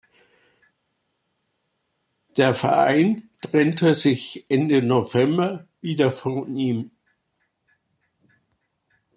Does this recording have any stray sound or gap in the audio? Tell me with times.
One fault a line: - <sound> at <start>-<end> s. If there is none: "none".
none